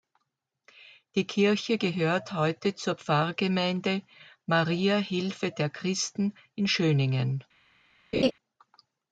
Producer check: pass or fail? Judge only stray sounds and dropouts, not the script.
fail